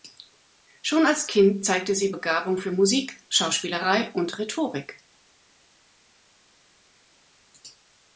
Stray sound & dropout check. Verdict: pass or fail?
pass